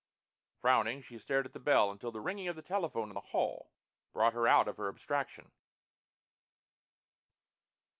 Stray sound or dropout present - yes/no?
no